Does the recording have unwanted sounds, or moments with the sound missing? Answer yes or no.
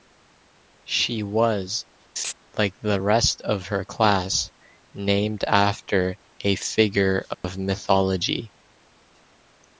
yes